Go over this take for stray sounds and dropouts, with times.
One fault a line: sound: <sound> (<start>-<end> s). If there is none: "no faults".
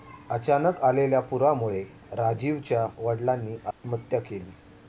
sound: dropout (3.7-3.8 s)